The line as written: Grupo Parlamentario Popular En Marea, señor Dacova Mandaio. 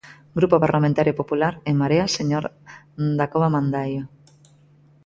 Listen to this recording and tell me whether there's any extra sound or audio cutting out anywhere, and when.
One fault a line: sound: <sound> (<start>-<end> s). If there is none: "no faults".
no faults